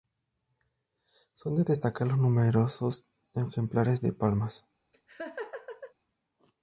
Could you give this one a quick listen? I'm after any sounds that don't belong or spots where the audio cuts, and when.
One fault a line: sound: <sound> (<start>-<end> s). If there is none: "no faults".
sound: laugh (4.9-5.9 s)